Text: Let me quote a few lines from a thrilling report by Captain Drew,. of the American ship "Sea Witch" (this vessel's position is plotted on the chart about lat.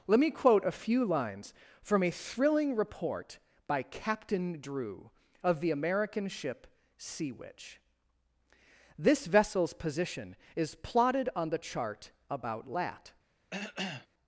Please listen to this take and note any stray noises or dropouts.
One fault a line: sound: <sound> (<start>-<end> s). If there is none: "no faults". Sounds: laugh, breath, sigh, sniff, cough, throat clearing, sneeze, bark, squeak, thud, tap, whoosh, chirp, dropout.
sound: cough (13.5-14.1 s)